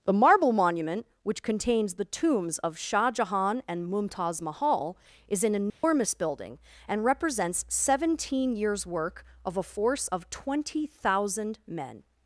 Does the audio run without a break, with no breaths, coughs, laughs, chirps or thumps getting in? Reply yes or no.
no